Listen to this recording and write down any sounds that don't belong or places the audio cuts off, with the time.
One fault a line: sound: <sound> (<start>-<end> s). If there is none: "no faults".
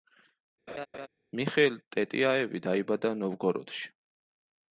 sound: laugh (0.7-1.1 s)